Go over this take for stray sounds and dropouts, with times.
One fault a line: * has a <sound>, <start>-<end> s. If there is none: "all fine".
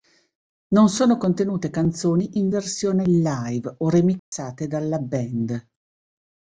* has a dropout, 4.2-4.3 s